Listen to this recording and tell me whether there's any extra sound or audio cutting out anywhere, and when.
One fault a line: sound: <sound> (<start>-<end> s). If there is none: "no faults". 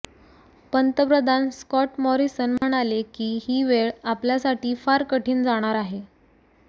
sound: dropout (2.6-2.6 s)